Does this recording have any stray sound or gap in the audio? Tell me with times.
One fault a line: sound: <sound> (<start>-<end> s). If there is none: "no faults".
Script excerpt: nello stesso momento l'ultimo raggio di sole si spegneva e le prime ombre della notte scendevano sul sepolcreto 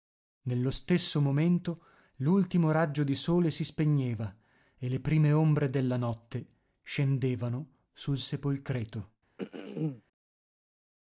sound: throat clearing (9.4-10.0 s)